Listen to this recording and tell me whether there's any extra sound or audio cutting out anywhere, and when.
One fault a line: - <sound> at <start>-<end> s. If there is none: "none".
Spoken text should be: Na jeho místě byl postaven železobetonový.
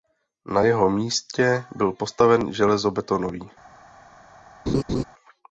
- laugh at 4.7-5.0 s